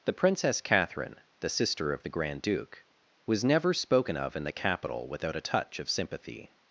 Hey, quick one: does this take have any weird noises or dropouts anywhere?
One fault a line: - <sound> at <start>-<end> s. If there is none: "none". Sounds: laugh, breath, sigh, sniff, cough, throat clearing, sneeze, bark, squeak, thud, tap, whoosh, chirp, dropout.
none